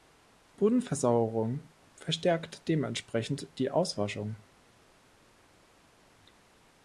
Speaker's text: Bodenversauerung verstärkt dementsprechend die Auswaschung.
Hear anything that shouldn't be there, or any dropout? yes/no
no